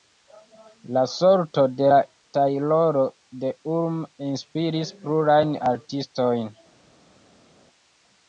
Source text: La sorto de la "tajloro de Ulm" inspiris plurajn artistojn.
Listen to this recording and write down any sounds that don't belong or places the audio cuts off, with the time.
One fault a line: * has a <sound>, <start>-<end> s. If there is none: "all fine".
all fine